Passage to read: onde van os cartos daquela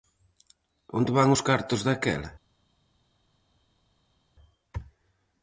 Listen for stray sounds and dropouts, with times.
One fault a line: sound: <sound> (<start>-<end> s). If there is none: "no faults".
no faults